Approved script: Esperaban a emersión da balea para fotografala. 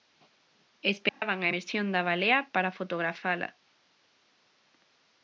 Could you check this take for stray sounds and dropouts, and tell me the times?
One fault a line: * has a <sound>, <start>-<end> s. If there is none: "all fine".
* has a dropout, 1.1-1.2 s